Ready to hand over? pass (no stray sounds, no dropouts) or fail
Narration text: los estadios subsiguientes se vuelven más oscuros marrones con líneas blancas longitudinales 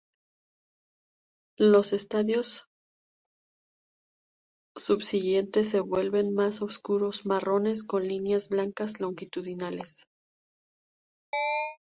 fail